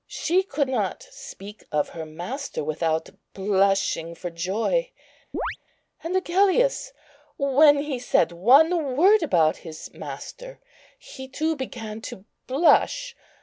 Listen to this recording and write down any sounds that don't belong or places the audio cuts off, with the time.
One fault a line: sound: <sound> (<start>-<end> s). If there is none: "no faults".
sound: chirp (5.3-5.6 s)